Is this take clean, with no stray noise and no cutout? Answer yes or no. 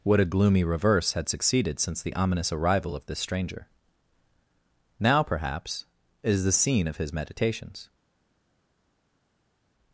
yes